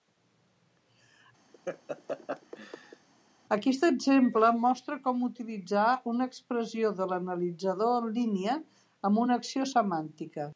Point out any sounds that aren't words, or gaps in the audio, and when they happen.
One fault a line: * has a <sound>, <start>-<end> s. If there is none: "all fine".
* has a laugh, 1.5-3.1 s